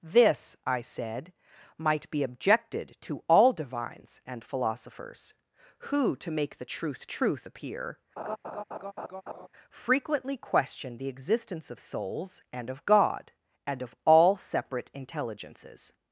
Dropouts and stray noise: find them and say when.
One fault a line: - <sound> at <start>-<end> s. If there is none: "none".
- laugh at 8.2-9.5 s